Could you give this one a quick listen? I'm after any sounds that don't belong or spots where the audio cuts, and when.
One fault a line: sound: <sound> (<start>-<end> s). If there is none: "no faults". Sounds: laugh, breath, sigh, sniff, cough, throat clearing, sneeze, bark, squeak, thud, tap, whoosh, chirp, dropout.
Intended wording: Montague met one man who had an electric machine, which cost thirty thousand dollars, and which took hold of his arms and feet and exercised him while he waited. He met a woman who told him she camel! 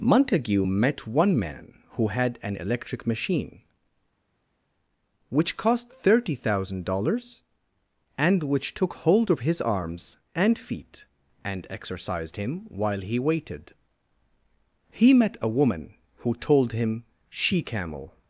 no faults